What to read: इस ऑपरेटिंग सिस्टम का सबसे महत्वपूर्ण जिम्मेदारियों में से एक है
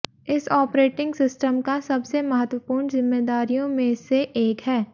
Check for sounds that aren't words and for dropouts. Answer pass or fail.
pass